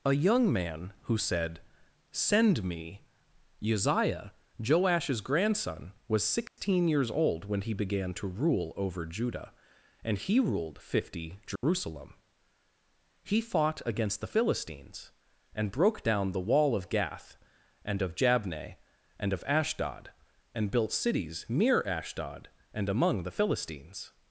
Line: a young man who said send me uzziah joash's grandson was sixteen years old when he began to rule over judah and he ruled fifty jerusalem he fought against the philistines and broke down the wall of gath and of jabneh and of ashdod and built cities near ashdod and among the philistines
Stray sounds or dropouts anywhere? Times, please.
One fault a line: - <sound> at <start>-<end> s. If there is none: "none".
- dropout at 6.5-6.6 s
- dropout at 11.6-11.6 s